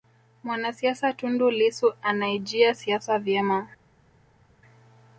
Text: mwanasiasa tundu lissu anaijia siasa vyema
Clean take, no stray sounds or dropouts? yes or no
yes